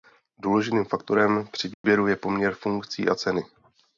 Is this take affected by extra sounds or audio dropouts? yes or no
yes